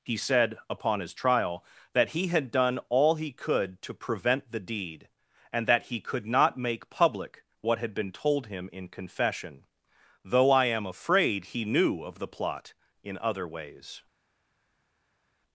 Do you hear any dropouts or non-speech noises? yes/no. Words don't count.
no